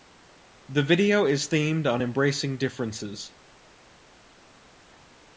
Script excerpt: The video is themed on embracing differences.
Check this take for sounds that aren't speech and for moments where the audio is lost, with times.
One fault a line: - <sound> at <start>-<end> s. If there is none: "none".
none